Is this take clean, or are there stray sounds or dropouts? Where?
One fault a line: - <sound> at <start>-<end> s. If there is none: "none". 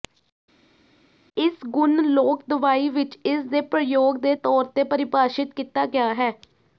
none